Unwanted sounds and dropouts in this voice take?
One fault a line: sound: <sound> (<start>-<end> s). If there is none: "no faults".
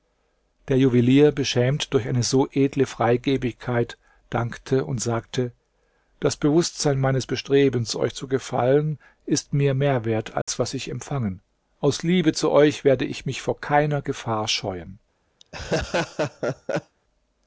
sound: dropout (10.4-10.5 s)
sound: laugh (15.4-17.0 s)